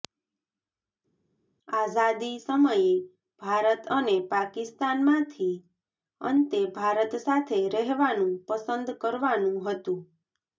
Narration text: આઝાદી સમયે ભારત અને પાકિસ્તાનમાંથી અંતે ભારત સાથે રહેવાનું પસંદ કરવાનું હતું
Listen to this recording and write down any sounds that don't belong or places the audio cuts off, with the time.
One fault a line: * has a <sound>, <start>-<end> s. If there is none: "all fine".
all fine